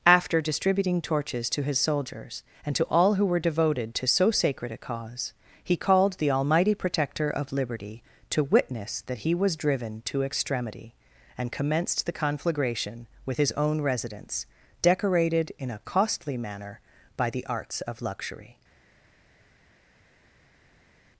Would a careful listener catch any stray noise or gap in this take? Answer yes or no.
no